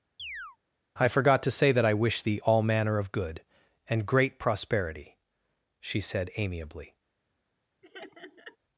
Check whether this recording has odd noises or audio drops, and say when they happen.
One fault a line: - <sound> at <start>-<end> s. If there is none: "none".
- chirp at 0.2-0.6 s
- laugh at 7.8-8.6 s